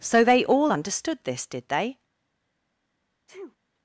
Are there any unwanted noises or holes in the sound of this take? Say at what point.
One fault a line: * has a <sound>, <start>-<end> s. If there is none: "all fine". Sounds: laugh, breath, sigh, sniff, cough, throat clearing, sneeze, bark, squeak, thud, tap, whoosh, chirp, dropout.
* has a sneeze, 3.3-3.6 s